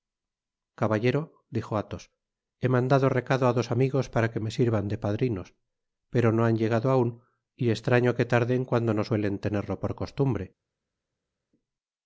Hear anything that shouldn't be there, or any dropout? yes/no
no